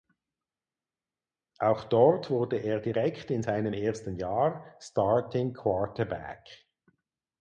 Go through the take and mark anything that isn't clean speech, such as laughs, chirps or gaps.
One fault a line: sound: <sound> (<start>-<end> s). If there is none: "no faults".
no faults